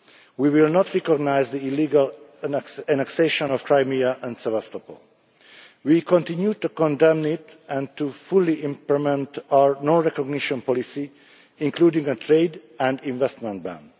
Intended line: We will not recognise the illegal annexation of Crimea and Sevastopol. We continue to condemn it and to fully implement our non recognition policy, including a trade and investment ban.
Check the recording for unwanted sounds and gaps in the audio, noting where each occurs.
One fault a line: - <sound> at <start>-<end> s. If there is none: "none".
none